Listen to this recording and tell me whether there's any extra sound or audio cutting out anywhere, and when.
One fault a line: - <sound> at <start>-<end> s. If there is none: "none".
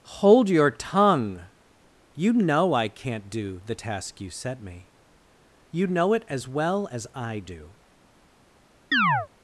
- chirp at 8.9-9.3 s